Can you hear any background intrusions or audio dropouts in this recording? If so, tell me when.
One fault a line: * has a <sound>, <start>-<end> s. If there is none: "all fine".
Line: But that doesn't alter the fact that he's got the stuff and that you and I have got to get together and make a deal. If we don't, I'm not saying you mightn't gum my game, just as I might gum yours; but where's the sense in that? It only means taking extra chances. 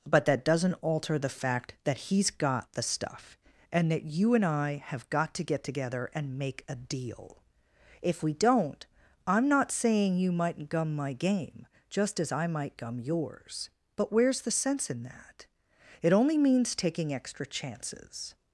all fine